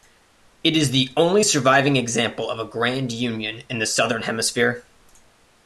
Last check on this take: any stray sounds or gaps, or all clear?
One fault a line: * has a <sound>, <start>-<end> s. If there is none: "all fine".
all fine